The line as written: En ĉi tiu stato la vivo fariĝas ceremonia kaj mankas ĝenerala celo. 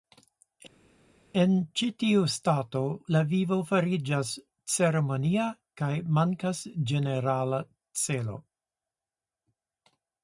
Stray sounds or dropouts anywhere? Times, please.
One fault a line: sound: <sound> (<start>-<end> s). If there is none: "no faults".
no faults